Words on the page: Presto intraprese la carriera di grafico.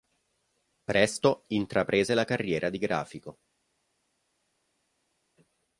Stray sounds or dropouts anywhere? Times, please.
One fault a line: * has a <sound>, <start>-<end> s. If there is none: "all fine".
all fine